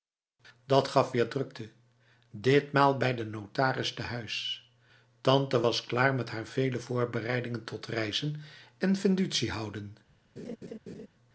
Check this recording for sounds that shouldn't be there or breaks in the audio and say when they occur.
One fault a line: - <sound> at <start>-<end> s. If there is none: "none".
- laugh at 10.4-11.1 s